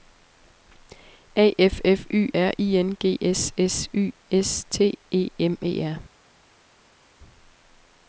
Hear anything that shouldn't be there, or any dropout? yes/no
no